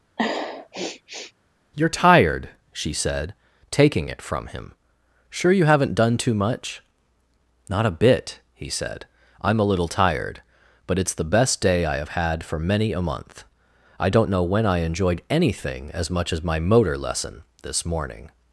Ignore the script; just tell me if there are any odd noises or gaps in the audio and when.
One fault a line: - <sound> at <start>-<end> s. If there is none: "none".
- sniff at 0.2-1.3 s